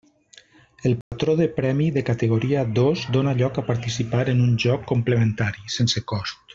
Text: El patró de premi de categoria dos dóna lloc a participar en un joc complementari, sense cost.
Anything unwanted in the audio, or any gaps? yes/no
yes